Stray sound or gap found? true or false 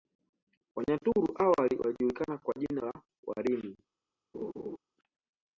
true